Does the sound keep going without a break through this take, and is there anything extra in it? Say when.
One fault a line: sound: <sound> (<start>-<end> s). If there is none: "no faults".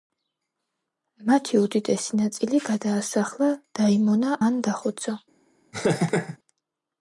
sound: laugh (5.7-6.4 s)